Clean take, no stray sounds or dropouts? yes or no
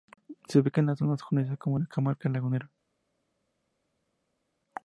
yes